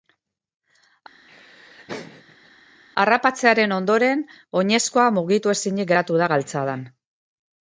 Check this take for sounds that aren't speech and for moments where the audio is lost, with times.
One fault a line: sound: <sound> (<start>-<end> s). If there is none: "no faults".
sound: laugh (1.3-2.5 s)